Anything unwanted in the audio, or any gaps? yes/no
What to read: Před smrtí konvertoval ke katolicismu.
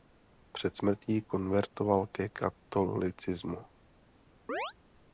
yes